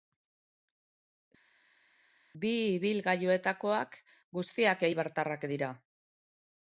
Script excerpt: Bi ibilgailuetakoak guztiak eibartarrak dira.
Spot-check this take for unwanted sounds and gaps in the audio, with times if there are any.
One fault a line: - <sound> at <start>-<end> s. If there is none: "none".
none